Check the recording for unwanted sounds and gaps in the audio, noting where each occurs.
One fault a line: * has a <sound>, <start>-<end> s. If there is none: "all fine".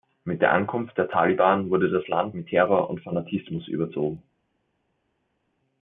all fine